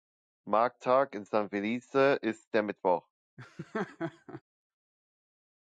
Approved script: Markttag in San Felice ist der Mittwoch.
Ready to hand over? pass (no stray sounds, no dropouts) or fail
fail